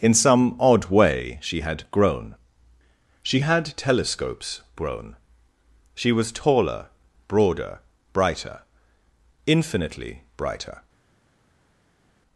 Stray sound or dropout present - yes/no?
no